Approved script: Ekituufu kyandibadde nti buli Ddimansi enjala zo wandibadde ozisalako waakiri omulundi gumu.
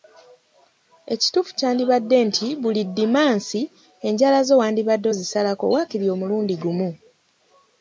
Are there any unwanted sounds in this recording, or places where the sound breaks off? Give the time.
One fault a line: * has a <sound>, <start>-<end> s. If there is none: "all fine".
all fine